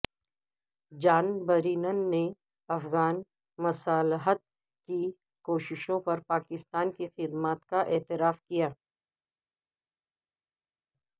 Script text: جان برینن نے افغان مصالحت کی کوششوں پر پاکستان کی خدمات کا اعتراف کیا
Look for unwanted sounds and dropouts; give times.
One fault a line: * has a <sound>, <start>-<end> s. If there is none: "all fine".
all fine